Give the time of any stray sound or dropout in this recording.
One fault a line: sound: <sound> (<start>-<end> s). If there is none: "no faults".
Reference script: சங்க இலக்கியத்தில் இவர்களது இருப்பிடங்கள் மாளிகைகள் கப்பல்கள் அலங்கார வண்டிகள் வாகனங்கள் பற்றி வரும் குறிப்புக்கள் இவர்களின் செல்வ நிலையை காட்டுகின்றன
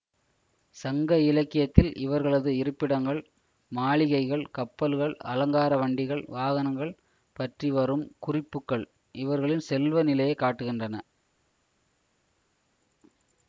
no faults